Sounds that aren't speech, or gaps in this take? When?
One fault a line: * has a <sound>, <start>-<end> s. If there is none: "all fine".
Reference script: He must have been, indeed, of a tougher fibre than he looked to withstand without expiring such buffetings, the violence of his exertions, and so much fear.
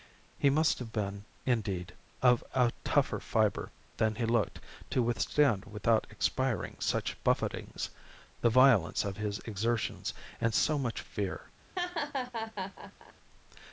* has a laugh, 11.8-13.1 s